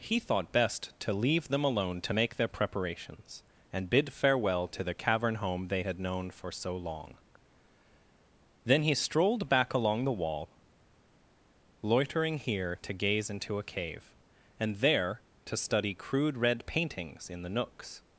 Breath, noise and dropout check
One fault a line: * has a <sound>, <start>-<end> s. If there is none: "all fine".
all fine